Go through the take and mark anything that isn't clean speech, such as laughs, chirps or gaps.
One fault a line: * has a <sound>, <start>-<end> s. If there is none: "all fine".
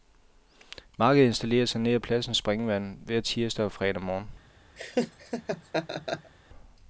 * has a laugh, 4.8-6.3 s